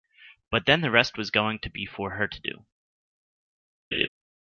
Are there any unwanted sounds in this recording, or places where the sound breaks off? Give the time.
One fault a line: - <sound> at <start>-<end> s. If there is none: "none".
- laugh at 3.9-4.1 s